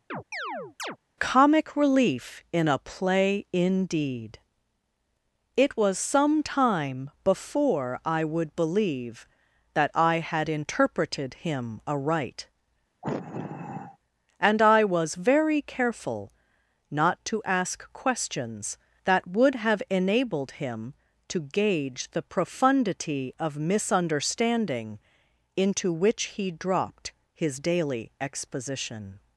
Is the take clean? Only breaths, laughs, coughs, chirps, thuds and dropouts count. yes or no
no